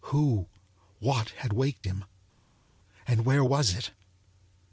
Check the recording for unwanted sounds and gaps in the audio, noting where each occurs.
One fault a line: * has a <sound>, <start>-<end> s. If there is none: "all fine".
all fine